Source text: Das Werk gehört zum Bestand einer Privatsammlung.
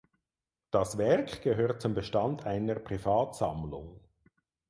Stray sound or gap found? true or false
false